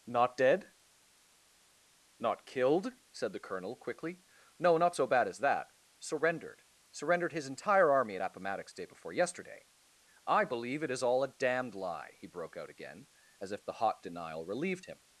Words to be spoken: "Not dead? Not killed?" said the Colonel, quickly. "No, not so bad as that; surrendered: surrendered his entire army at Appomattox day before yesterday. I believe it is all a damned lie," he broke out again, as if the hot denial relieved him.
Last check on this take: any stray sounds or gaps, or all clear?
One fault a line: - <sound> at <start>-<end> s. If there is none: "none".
none